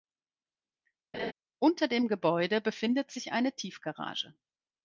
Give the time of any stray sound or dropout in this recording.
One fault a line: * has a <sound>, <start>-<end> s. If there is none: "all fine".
* has a laugh, 1.1-1.3 s